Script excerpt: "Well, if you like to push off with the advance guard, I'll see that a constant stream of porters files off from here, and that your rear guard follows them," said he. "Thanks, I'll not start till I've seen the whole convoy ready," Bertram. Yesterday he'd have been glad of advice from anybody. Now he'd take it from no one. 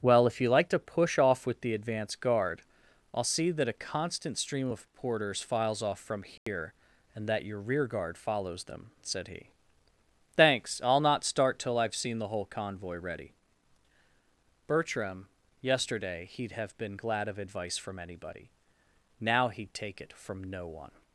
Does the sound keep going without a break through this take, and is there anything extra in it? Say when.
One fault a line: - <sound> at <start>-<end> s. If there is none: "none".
- dropout at 6.4-6.5 s